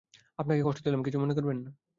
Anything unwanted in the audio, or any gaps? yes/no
no